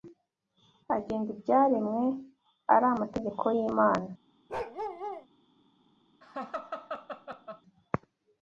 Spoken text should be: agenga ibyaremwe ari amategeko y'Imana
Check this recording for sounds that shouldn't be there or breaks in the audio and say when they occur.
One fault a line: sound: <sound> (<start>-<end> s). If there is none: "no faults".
sound: bark (4.5-5.3 s)
sound: laugh (6.2-7.6 s)